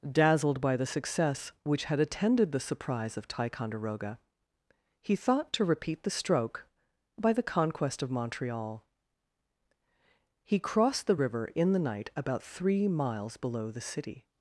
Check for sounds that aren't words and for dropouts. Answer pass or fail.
pass